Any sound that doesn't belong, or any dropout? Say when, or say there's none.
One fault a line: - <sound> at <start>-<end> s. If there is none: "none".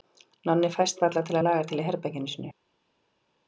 none